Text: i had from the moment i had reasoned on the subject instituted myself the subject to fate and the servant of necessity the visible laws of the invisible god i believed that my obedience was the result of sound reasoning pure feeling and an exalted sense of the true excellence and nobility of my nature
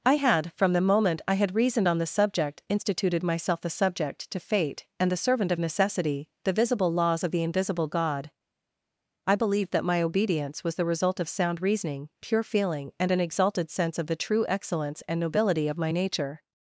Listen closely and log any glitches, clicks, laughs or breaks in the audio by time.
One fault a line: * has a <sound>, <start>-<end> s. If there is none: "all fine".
all fine